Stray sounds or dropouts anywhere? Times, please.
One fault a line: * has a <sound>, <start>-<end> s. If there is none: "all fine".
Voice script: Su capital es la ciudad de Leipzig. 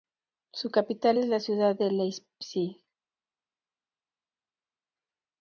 all fine